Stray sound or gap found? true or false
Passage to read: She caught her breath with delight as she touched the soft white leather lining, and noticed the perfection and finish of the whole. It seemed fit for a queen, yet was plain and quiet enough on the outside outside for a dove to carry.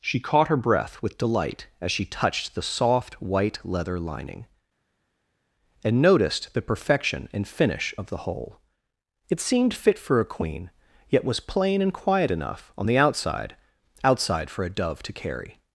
false